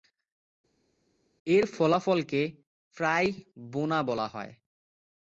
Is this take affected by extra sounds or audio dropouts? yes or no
no